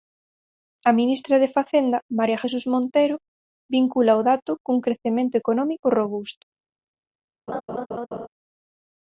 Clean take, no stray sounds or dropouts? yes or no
no